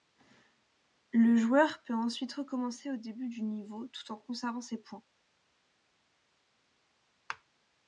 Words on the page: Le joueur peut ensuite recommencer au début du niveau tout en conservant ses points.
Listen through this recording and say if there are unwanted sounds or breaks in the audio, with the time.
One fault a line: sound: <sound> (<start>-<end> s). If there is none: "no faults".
no faults